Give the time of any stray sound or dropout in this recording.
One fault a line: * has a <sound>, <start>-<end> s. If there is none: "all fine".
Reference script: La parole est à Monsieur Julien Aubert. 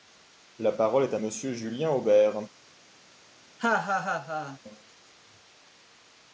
* has a laugh, 3.6-4.6 s